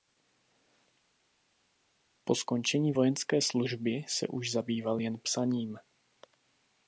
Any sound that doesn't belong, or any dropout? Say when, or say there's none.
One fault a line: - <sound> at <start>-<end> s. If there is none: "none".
none